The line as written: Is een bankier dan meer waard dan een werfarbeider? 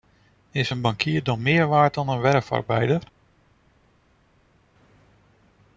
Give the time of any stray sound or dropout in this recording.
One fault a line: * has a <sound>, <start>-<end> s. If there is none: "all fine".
all fine